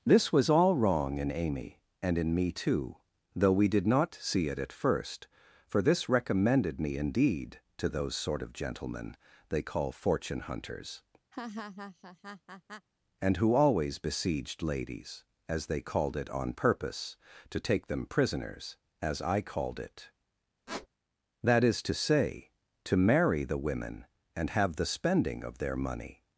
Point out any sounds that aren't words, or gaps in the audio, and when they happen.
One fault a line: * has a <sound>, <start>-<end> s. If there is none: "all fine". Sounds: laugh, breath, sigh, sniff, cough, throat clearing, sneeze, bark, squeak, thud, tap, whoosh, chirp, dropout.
* has a laugh, 11.3-12.9 s
* has a squeak, 20.7-20.9 s